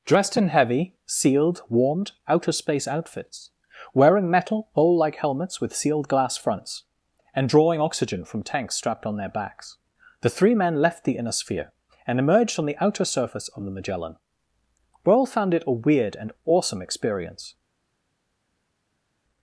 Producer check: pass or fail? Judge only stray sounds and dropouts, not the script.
pass